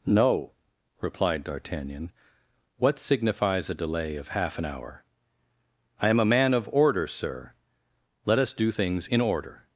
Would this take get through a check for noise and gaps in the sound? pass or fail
pass